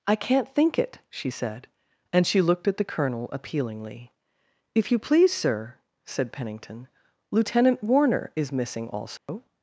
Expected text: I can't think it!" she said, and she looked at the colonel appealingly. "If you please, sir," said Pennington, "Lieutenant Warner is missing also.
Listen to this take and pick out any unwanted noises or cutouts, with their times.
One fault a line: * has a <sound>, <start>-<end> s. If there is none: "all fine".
* has a dropout, 9.2-9.3 s